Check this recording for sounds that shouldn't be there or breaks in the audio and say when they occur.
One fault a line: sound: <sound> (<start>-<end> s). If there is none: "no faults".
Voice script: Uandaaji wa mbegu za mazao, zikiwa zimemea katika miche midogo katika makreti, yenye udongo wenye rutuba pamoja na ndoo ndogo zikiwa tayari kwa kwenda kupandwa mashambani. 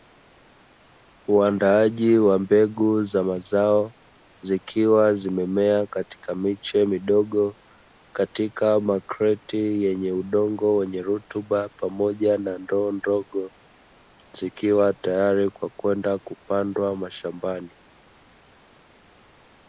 no faults